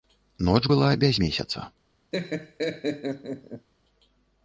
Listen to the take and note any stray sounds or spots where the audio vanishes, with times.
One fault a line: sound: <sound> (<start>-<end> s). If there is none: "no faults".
sound: laugh (2.1-3.7 s)